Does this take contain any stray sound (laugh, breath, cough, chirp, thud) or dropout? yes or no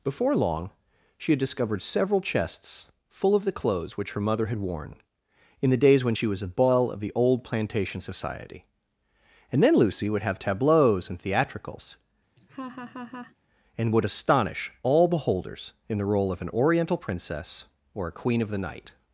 yes